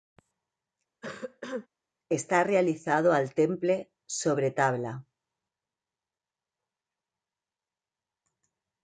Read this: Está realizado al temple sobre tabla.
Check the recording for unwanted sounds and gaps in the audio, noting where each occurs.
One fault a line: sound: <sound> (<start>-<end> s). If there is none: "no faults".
sound: cough (1.0-1.7 s)